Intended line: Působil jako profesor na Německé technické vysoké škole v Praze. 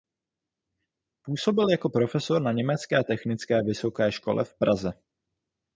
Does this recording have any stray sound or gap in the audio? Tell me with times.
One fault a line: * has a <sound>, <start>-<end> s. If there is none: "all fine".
all fine